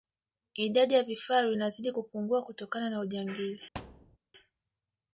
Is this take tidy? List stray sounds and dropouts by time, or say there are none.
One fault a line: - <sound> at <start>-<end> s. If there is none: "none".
- thud at 3.7-4.2 s